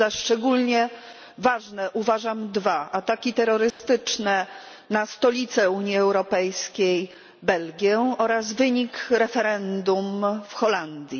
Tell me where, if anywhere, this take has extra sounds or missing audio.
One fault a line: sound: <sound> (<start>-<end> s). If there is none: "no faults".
sound: dropout (3.7-3.8 s)